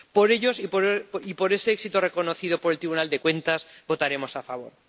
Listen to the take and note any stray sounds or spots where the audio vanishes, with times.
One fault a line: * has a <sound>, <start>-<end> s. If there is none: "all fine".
all fine